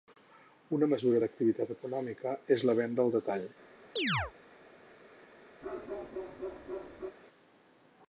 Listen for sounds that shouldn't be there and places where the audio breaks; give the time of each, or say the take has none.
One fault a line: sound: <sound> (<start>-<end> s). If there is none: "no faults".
sound: chirp (4.0-4.3 s)
sound: bark (5.6-7.2 s)